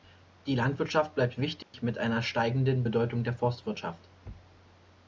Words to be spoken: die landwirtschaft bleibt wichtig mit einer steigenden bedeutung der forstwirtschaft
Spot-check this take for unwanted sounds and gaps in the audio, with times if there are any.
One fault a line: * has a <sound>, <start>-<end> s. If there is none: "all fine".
* has a dropout, 1.6-1.7 s